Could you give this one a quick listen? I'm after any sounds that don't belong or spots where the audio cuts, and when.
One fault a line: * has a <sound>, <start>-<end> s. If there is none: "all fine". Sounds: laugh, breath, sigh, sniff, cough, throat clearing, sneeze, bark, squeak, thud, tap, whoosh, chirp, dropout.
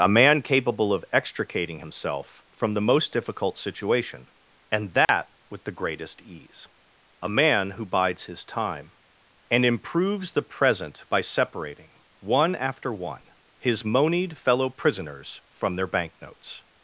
* has a dropout, 5.0-5.1 s